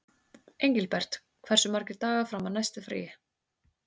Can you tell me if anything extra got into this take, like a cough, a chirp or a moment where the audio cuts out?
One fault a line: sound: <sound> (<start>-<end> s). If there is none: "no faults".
no faults